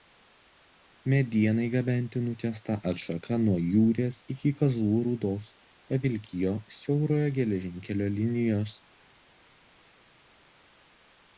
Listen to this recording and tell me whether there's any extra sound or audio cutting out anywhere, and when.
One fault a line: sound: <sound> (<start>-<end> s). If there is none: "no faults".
no faults